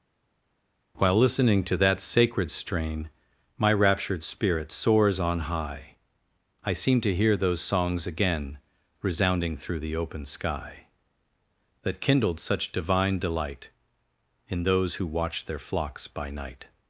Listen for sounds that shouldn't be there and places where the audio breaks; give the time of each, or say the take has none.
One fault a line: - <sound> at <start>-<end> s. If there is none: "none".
none